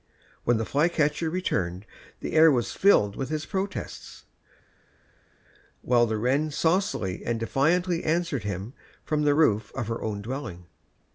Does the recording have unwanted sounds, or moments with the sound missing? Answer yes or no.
no